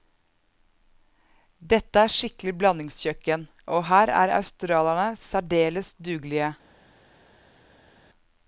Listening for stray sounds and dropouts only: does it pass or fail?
pass